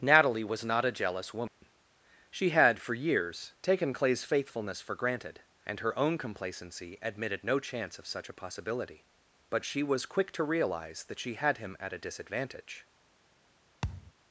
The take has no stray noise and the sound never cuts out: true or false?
false